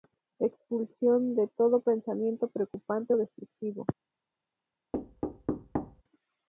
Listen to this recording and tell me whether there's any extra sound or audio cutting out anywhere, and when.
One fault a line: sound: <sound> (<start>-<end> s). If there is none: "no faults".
sound: thud (4.9-6.0 s)